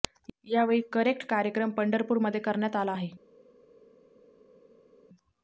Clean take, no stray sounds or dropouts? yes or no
yes